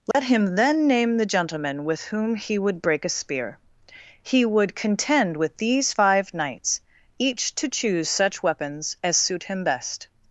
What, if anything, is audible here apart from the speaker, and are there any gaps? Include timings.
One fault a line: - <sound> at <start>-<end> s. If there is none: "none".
- dropout at 0.1-0.1 s